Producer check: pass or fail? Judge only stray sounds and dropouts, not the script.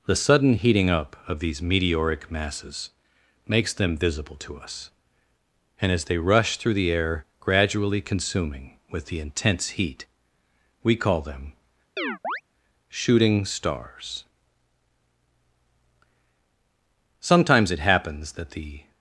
fail